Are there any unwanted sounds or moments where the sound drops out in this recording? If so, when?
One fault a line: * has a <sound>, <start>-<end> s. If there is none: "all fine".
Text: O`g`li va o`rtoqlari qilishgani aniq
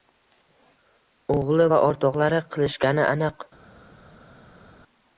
all fine